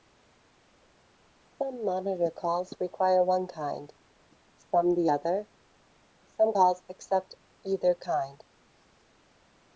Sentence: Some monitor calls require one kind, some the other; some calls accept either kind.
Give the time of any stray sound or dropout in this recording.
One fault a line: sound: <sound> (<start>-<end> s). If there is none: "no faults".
no faults